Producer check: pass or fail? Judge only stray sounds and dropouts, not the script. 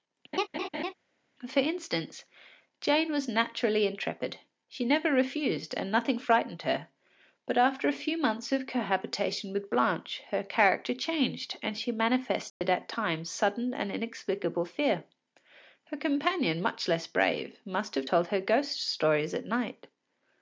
fail